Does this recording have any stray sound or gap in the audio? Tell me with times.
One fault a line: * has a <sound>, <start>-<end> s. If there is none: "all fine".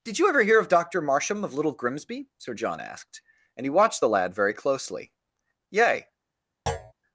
* has a thud, 6.7-6.9 s